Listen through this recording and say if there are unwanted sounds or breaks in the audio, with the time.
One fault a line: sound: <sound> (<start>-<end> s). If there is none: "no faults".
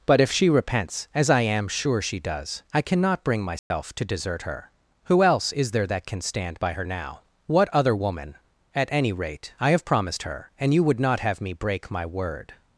sound: dropout (3.6-3.7 s)